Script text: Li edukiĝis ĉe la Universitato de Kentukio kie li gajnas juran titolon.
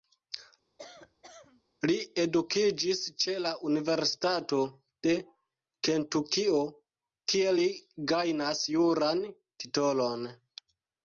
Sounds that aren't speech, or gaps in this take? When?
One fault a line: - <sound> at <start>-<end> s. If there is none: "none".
- cough at 0.8-1.6 s